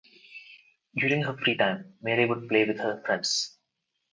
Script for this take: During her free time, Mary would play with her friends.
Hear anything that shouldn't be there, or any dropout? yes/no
no